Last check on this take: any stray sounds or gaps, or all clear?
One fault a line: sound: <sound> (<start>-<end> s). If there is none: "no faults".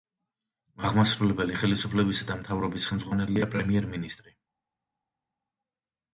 no faults